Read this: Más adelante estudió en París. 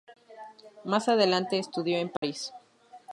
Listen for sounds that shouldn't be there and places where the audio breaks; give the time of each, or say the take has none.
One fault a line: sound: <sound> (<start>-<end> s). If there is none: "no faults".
sound: dropout (2.2-2.2 s)